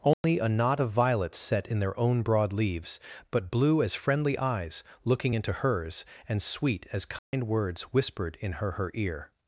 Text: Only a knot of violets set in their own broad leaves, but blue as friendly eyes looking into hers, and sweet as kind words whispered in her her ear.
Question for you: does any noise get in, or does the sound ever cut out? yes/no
yes